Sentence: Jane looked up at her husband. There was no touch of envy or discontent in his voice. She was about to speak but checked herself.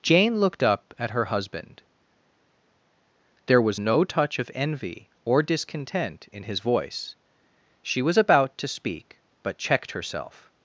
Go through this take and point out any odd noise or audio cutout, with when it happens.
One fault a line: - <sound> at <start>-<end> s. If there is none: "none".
none